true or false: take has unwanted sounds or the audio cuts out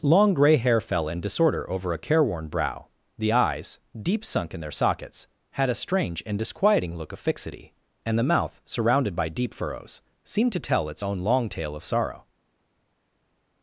false